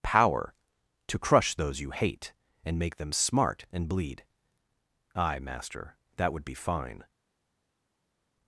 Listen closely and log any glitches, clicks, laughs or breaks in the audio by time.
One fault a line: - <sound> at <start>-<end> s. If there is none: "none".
none